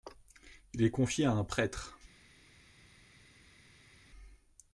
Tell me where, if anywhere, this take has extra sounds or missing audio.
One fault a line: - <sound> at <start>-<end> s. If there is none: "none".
none